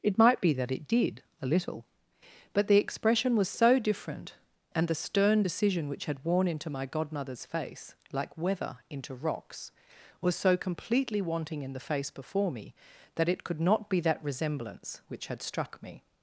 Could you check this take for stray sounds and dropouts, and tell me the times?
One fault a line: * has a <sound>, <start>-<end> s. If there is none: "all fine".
all fine